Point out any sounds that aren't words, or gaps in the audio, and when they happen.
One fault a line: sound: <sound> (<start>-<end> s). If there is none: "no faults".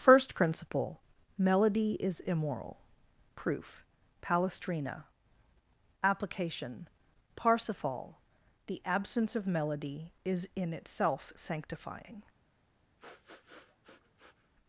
sound: sniff (13.0-14.5 s)